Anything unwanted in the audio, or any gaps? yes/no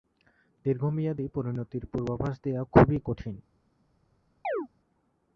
yes